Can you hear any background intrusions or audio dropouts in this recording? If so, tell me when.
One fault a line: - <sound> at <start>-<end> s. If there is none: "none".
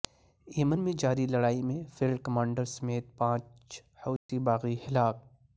- dropout at 4.2-4.3 s